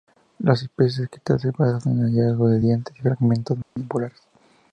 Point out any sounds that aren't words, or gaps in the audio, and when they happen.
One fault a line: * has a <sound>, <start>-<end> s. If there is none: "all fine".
* has a dropout, 3.6-3.8 s